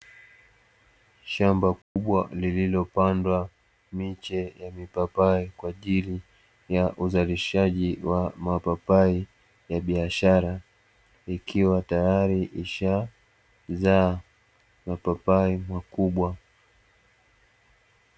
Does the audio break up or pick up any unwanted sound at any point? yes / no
yes